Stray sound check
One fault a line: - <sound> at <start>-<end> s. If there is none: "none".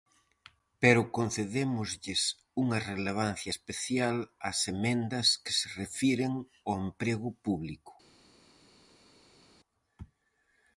none